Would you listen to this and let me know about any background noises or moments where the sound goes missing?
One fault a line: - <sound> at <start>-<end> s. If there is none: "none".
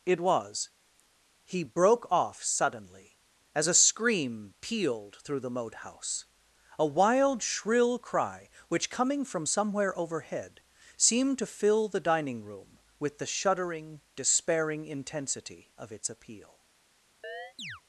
- chirp at 17.2-17.8 s